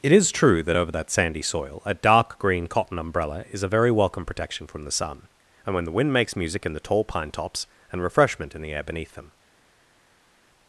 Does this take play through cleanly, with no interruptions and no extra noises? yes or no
yes